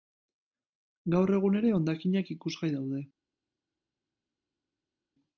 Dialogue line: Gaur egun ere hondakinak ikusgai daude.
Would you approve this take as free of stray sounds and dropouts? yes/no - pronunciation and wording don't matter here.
yes